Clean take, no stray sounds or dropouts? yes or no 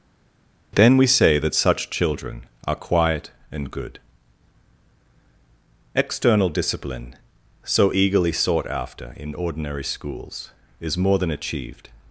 yes